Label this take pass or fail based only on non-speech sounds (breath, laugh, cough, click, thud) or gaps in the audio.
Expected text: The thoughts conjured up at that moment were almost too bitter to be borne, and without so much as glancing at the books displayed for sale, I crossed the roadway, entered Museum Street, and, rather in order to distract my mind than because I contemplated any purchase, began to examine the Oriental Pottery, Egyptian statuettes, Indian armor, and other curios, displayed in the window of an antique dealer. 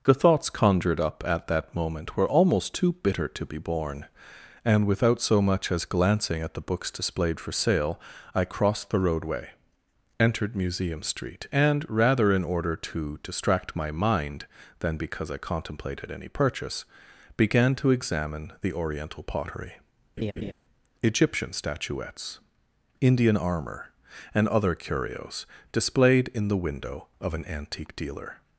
fail